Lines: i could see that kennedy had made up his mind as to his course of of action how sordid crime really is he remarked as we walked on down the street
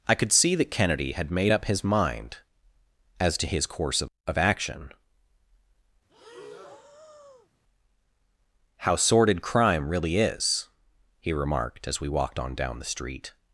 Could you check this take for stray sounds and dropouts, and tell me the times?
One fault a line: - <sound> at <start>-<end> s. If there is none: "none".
- breath at 6.1-7.5 s